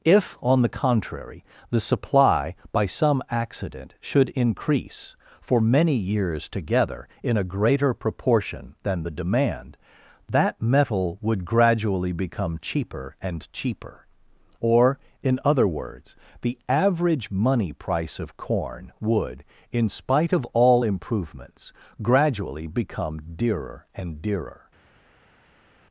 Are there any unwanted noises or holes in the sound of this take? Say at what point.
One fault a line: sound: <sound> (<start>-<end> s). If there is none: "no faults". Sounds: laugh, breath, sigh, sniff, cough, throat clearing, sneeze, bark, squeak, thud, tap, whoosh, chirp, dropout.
no faults